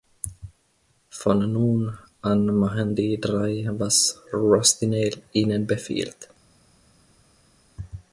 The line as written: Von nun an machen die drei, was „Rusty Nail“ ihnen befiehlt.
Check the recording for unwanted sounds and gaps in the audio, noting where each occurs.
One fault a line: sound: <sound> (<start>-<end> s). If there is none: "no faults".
no faults